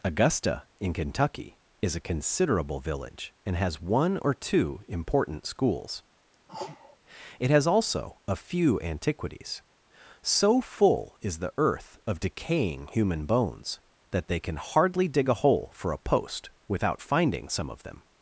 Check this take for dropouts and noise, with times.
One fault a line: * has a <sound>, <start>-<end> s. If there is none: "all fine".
* has a sneeze, 6.5-7.0 s